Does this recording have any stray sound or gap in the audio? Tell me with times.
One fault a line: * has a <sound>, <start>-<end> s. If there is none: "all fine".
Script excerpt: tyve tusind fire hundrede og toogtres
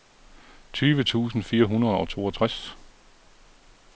all fine